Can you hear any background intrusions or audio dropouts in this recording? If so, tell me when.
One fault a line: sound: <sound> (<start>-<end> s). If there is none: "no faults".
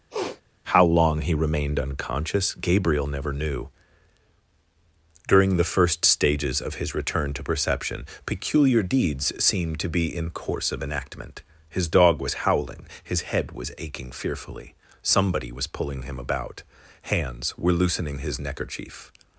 sound: sniff (0.1-0.4 s)